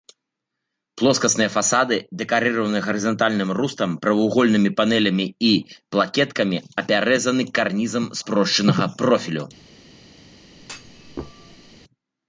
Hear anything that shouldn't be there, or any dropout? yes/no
yes